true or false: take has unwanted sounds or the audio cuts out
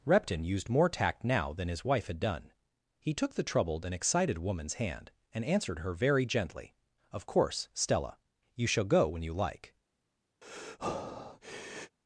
true